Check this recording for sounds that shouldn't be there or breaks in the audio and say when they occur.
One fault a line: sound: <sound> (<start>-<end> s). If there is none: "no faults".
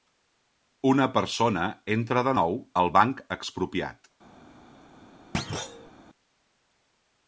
sound: thud (5.3-5.9 s)